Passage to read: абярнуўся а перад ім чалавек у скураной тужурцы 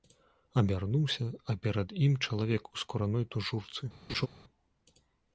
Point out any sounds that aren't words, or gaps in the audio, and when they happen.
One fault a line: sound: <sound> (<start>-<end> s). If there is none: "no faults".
sound: laugh (4.1-4.3 s)